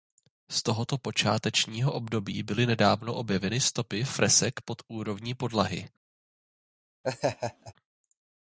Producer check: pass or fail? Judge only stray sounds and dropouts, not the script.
fail